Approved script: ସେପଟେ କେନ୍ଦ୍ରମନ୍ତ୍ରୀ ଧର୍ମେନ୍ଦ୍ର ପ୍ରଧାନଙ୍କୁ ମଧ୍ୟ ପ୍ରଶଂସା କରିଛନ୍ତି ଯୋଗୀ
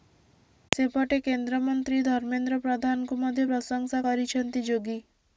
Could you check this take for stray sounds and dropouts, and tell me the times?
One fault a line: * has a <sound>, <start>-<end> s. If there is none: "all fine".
all fine